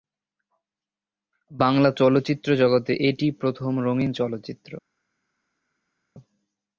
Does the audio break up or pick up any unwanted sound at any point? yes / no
no